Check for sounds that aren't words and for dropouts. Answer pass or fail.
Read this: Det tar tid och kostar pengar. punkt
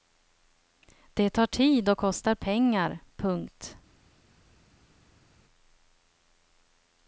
pass